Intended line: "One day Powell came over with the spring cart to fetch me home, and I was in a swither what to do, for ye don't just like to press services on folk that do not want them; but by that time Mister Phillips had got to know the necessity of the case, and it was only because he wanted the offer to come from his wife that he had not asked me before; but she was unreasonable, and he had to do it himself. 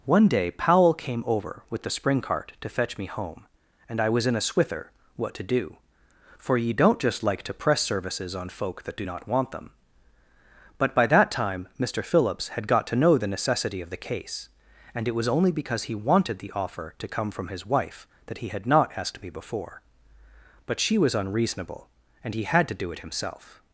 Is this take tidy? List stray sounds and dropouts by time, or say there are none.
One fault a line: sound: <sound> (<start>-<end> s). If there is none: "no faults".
no faults